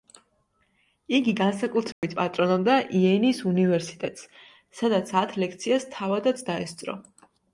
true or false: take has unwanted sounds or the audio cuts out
true